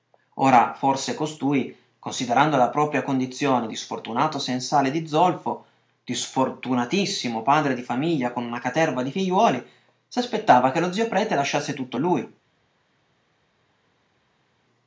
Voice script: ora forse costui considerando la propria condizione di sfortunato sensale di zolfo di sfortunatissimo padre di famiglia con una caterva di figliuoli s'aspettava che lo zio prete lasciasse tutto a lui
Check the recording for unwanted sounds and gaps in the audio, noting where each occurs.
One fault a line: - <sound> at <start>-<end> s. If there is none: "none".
none